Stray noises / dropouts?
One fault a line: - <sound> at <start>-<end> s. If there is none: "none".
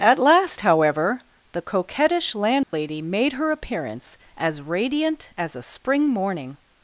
- dropout at 2.6-2.7 s